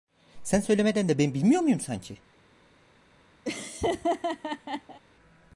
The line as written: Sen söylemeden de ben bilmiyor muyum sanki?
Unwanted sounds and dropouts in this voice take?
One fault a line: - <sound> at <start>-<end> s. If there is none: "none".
- laugh at 3.5-5.0 s